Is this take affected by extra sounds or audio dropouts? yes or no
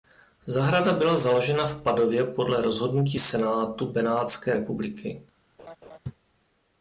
yes